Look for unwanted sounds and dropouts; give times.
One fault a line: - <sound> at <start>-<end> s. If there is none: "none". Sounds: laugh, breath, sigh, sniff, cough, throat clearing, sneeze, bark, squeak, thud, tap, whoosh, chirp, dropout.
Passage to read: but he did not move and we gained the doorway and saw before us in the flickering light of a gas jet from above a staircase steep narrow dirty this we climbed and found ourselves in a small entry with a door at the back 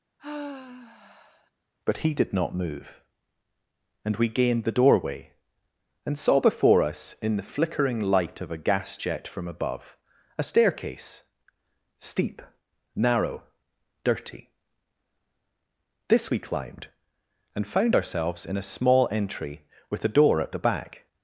- sigh at 0.2-1.5 s